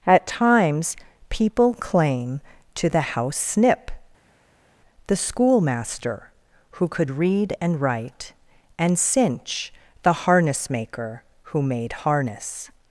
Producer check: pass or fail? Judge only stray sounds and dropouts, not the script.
pass